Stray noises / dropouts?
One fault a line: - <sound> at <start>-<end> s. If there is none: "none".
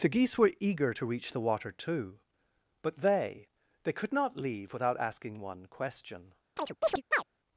- chirp at 6.6-7.2 s